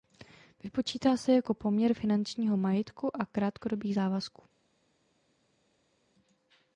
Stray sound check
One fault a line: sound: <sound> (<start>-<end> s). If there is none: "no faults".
no faults